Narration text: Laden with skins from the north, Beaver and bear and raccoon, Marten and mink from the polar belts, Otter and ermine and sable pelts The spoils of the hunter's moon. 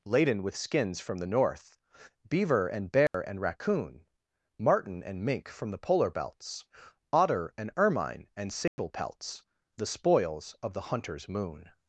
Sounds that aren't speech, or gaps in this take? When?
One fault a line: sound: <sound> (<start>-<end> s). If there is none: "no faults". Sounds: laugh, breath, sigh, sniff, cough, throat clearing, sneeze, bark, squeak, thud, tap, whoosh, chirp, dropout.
sound: dropout (3.1-3.1 s)
sound: dropout (8.7-8.8 s)